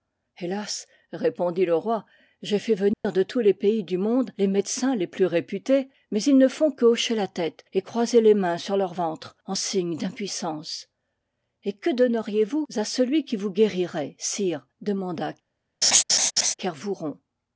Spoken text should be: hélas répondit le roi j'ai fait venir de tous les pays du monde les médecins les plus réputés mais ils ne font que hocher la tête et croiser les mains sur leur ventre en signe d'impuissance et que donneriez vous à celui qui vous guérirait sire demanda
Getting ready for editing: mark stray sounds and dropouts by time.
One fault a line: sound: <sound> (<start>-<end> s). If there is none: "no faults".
sound: dropout (2.9-3.0 s)
sound: laugh (15.8-16.5 s)